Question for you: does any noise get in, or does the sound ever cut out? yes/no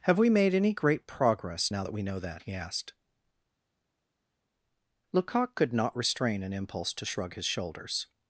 no